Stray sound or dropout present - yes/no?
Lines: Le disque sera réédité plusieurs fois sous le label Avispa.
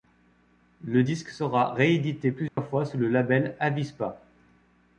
yes